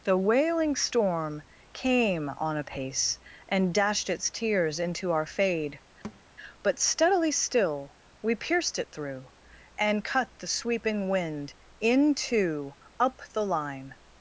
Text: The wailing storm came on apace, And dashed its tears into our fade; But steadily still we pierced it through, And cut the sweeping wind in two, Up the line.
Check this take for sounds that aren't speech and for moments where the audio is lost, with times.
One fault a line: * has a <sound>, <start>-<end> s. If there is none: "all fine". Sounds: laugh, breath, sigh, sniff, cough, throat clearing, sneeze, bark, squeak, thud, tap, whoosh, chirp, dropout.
* has a thud, 6.0-6.2 s